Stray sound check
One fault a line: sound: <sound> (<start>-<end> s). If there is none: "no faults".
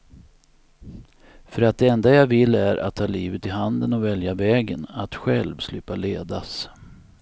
no faults